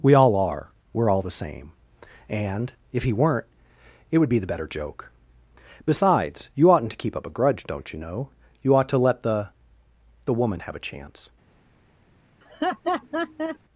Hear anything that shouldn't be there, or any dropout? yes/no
yes